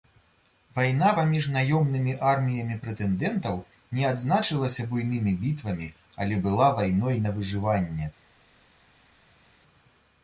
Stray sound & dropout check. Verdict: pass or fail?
pass